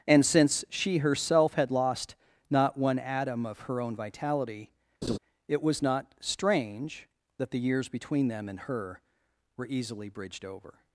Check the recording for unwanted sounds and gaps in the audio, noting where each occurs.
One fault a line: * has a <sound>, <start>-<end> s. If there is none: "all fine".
* has a laugh, 5.0-5.2 s